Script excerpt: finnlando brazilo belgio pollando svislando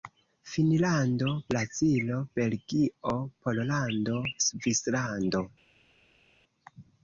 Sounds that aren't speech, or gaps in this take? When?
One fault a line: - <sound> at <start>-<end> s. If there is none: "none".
none